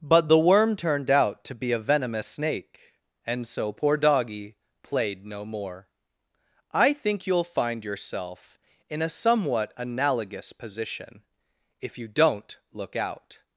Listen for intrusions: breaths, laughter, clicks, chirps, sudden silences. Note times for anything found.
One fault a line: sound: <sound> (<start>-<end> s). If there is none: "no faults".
no faults